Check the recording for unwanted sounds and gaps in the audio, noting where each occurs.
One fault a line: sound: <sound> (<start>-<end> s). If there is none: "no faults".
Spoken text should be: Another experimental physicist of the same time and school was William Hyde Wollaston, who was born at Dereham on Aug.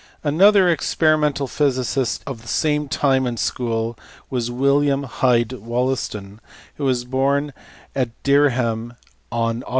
no faults